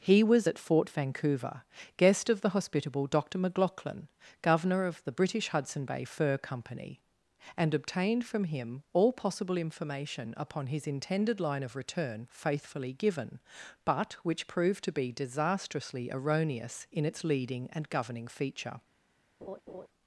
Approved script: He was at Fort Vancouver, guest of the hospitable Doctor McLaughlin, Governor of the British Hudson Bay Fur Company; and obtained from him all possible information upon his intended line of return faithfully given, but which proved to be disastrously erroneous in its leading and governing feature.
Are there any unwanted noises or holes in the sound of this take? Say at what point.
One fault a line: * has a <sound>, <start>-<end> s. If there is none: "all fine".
* has a laugh, 19.4-19.9 s